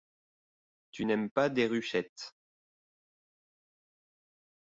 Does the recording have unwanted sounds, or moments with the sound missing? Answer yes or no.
no